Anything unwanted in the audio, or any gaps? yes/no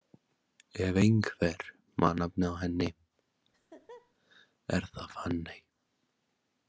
yes